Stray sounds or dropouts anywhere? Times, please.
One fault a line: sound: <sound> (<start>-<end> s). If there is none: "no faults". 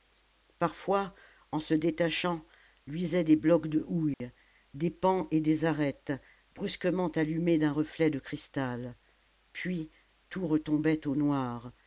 sound: dropout (4.1-4.2 s)